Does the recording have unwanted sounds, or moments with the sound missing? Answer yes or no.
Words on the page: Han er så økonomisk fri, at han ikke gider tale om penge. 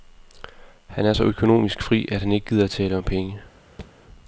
yes